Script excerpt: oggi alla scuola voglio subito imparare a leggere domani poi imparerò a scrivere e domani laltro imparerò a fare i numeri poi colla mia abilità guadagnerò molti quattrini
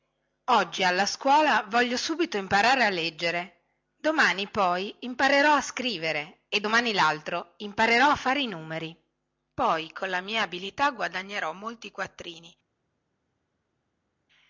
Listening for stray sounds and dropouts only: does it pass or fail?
pass